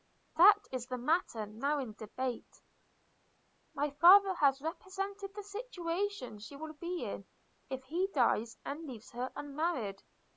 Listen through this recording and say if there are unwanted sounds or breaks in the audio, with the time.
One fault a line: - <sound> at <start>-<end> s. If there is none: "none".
none